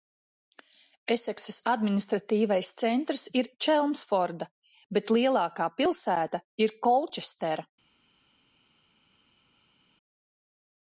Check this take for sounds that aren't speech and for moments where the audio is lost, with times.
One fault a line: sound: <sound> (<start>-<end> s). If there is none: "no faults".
no faults